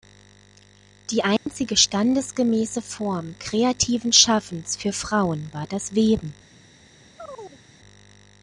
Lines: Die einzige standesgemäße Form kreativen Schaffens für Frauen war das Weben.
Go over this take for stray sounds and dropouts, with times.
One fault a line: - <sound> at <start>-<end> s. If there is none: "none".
- dropout at 1.4-1.5 s
- chirp at 7.2-7.6 s